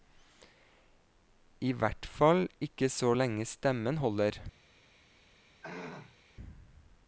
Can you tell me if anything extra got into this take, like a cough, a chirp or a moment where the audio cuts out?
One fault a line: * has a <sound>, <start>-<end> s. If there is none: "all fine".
* has a throat clearing, 5.6-6.2 s